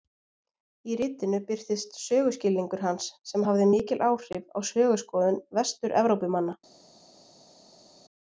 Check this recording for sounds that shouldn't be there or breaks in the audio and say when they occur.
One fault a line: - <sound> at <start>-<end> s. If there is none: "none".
none